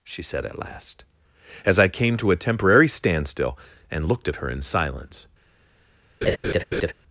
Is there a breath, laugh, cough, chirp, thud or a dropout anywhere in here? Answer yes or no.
yes